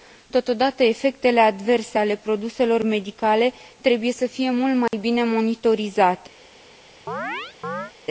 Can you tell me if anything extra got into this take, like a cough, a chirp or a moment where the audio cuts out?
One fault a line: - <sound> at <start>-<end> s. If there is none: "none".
- dropout at 4.9-4.9 s
- chirp at 7.1-7.9 s